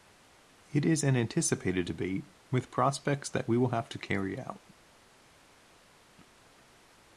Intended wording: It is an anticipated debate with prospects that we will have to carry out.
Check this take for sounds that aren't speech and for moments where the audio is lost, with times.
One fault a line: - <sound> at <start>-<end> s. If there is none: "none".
none